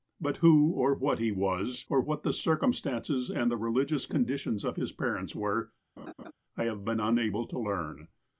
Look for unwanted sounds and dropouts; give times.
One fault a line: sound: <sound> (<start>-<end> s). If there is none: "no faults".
sound: laugh (6.0-6.3 s)